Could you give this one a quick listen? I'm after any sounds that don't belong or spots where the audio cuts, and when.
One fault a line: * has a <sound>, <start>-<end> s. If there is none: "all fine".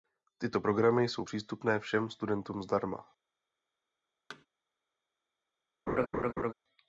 * has a thud, 4.3-4.5 s
* has a laugh, 5.9-6.5 s